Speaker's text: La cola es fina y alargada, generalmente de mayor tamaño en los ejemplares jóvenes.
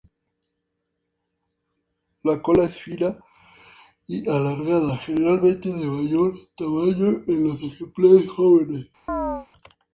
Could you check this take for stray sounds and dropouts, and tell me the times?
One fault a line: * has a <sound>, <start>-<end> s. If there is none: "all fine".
* has a chirp, 9.1-9.5 s